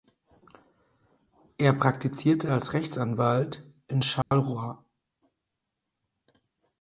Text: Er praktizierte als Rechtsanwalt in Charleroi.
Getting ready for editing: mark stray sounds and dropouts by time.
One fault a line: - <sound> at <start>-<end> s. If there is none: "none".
- dropout at 4.2-4.3 s